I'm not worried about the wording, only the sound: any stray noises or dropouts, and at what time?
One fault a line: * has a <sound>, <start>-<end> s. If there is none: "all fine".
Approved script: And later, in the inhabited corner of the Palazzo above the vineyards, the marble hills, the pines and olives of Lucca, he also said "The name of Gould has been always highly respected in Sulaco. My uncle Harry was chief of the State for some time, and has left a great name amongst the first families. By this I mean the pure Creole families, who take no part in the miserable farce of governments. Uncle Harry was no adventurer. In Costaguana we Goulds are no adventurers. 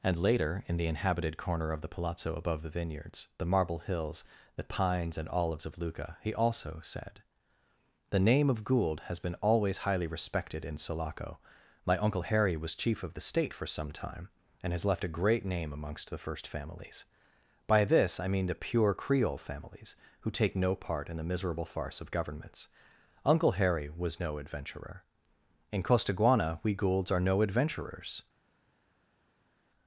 all fine